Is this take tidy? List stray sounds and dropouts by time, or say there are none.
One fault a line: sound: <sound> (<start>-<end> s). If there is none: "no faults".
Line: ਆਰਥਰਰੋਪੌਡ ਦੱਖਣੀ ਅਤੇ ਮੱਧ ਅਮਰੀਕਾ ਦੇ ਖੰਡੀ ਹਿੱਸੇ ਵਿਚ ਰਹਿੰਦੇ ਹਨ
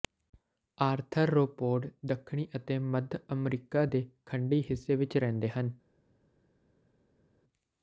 no faults